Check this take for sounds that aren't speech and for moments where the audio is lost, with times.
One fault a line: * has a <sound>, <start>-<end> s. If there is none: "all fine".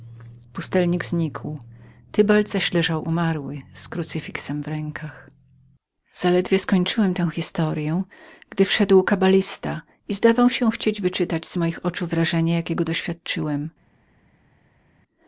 all fine